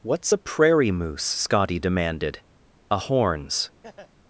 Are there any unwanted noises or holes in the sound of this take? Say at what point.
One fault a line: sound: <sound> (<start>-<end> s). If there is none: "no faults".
sound: laugh (3.8-4.1 s)